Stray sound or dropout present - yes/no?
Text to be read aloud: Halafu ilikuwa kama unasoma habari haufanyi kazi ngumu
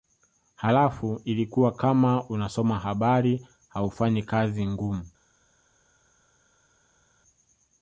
no